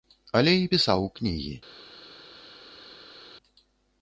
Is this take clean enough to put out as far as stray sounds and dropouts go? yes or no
yes